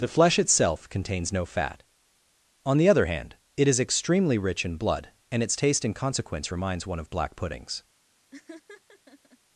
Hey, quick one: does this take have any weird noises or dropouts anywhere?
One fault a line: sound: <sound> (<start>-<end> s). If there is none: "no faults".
sound: laugh (8.3-9.4 s)